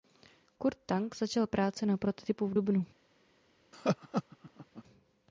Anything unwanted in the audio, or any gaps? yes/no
yes